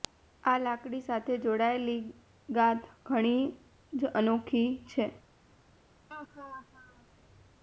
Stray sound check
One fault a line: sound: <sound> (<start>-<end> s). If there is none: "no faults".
sound: laugh (6.1-7.1 s)